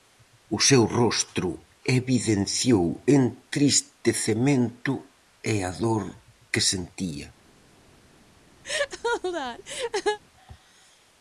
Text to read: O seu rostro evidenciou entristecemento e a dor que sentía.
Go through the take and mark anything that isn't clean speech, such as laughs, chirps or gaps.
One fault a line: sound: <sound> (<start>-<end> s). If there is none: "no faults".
sound: laugh (8.6-10.2 s)